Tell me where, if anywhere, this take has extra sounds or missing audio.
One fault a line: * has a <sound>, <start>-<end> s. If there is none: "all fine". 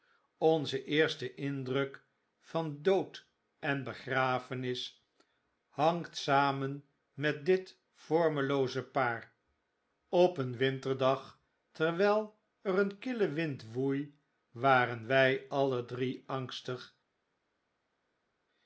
all fine